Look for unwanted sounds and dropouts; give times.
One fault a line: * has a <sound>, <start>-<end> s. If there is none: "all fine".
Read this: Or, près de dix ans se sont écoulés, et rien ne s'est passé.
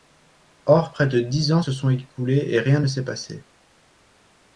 all fine